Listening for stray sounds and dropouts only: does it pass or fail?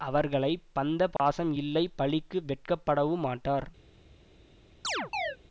fail